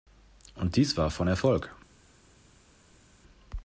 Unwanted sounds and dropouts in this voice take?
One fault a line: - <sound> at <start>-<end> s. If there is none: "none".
none